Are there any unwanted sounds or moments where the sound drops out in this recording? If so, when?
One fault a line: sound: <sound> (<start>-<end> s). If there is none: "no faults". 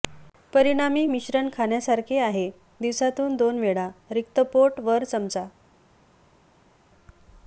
no faults